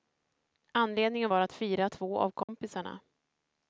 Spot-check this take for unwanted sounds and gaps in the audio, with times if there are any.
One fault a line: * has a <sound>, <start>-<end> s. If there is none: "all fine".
* has a dropout, 2.4-2.5 s